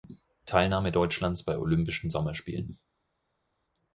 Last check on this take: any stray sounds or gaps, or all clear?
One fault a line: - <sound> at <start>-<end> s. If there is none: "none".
none